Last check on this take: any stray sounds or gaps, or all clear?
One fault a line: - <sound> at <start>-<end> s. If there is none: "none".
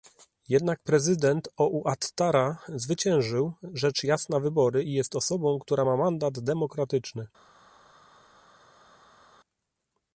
none